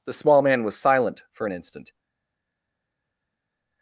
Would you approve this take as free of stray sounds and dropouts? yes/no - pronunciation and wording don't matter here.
yes